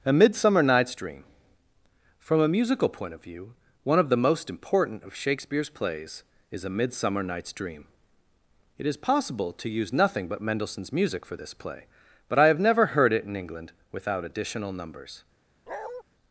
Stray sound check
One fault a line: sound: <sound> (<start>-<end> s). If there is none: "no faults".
sound: bark (15.7-16.0 s)